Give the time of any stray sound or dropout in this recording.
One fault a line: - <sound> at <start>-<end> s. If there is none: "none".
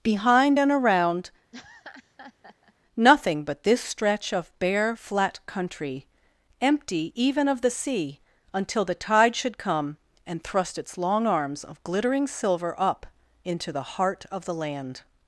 - laugh at 1.5-2.7 s